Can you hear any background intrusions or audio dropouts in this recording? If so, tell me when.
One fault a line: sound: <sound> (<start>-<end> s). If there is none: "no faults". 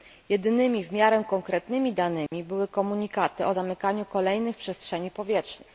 sound: dropout (2.3-2.3 s)